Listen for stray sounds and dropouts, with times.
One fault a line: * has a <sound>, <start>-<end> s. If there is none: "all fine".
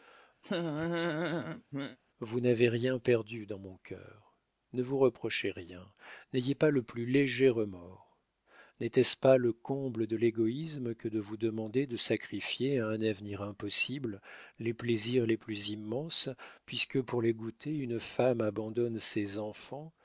* has a laugh, 0.4-2.0 s